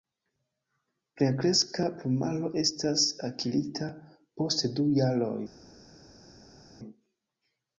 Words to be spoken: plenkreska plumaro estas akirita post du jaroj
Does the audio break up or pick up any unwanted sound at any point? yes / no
no